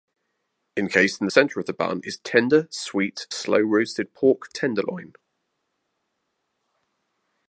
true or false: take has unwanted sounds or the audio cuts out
false